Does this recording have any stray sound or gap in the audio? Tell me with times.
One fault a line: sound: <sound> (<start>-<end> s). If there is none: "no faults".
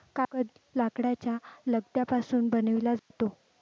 sound: dropout (3.0-3.1 s)